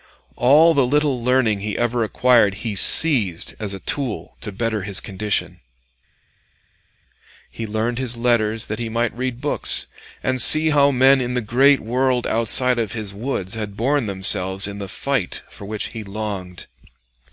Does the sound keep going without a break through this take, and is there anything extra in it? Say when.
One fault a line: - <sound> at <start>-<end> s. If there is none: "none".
none